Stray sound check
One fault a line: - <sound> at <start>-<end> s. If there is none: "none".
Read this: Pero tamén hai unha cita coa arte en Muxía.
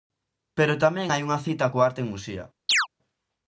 - chirp at 2.7-2.9 s